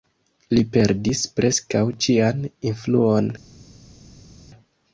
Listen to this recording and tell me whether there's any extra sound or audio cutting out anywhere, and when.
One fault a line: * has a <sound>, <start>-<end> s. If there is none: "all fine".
all fine